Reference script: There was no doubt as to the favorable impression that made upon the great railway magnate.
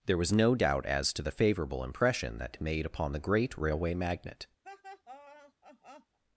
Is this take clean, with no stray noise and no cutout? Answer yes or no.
no